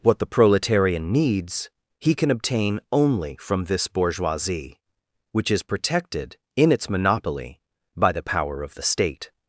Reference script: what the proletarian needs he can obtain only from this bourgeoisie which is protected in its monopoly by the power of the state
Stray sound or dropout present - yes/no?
no